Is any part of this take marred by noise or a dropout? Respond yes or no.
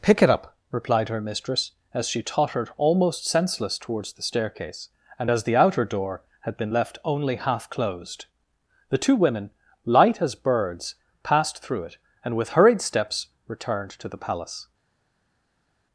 no